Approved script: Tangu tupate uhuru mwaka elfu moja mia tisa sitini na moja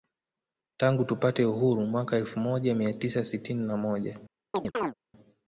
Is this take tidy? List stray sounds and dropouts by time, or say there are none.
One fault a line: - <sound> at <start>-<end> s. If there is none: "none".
- chirp at 4.5-4.9 s